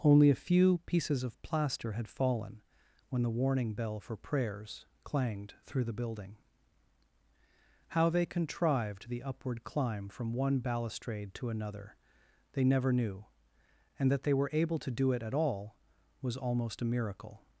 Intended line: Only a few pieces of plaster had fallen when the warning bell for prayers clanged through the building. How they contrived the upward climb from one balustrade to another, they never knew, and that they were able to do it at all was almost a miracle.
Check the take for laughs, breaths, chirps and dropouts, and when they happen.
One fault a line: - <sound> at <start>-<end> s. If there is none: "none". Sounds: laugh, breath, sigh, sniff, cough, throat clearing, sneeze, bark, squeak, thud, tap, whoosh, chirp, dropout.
none